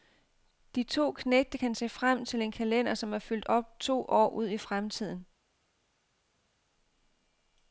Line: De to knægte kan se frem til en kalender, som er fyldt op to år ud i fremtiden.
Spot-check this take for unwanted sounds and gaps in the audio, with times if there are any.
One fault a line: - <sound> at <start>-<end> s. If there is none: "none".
none